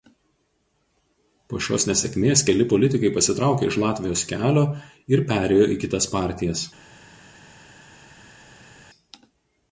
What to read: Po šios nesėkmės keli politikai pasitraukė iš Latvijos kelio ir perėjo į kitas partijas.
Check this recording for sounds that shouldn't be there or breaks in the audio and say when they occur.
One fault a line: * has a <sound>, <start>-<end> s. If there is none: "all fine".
all fine